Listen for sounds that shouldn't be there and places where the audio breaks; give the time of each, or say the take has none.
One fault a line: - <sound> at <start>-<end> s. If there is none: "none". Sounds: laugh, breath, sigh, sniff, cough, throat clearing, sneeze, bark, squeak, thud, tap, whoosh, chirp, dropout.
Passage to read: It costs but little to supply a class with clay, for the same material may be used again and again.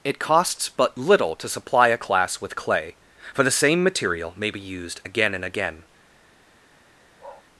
- bark at 7.2-7.4 s